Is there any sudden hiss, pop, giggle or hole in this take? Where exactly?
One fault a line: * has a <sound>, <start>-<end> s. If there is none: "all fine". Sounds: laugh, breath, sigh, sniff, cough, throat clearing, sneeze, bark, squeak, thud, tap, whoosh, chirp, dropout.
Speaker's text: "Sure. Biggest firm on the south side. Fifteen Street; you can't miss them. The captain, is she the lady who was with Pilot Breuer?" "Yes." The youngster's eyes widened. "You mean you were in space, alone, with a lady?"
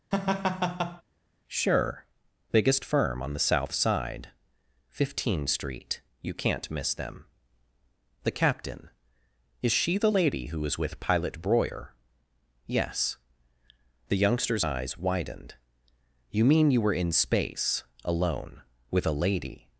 * has a laugh, 0.1-1.0 s